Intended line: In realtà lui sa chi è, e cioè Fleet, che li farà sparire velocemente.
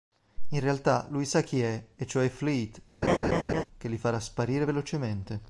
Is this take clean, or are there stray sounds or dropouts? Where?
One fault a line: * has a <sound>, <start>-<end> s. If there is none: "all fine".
* has a laugh, 3.0-3.6 s